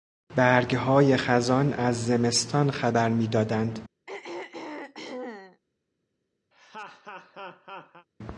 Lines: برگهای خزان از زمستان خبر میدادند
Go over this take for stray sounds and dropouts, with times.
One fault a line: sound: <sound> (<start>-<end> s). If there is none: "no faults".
sound: throat clearing (4.1-5.6 s)
sound: laugh (6.5-8.1 s)